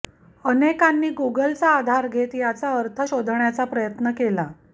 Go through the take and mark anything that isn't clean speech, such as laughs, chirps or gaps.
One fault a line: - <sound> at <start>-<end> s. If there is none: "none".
none